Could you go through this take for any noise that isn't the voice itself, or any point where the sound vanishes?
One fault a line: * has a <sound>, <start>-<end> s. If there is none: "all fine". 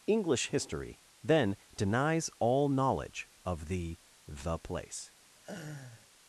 * has a laugh, 5.3-6.1 s